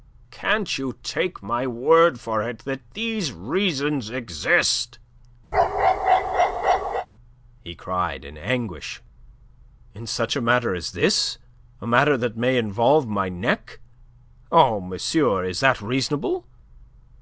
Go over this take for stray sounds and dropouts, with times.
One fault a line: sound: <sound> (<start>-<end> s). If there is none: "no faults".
sound: bark (5.5-7.1 s)